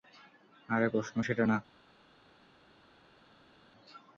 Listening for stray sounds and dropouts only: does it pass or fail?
pass